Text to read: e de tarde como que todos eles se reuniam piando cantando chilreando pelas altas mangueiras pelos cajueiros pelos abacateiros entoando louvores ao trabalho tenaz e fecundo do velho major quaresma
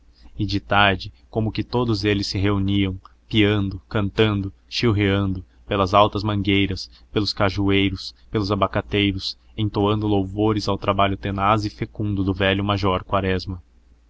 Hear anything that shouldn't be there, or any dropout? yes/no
no